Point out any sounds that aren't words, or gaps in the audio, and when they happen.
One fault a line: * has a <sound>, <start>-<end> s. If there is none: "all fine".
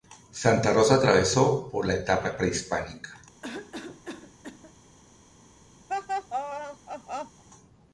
* has a cough, 3.4-4.7 s
* has a laugh, 5.9-7.4 s